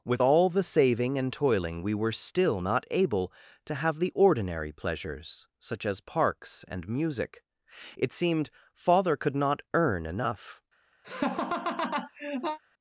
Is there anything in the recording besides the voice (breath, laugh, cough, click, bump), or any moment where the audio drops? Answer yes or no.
yes